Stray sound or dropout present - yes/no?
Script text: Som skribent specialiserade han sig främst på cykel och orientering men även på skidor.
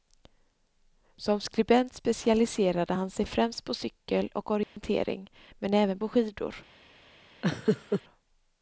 yes